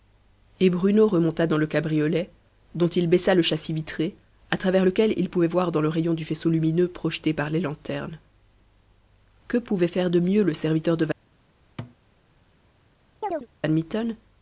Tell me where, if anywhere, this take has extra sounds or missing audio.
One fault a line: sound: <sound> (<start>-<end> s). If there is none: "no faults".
sound: thud (11.8-12.0 s)
sound: chirp (13.2-13.5 s)